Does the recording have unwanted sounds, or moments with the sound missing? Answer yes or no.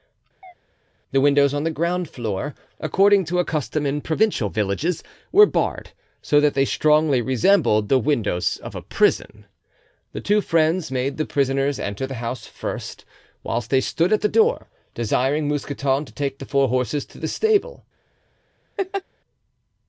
yes